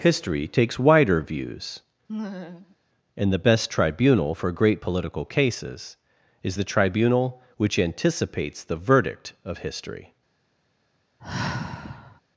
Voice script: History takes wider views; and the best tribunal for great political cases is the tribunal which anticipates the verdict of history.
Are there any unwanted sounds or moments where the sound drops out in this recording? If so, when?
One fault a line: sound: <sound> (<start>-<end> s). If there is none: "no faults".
sound: laugh (2.1-2.8 s)
sound: sigh (11.2-12.2 s)